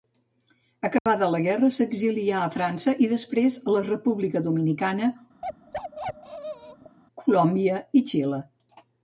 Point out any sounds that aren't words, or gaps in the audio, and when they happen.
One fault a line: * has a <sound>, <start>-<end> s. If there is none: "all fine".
* has a dropout, 1.0-1.1 s
* has a bark, 5.4-7.0 s